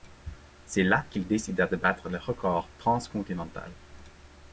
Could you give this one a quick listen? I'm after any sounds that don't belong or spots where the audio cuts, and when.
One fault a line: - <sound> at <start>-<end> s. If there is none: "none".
none